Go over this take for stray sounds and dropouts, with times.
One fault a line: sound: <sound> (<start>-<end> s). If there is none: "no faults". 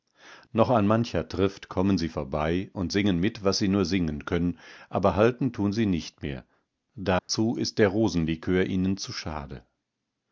sound: dropout (7.2-7.3 s)